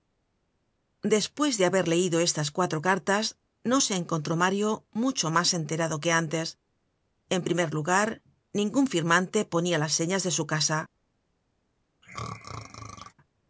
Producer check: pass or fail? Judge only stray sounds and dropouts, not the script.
fail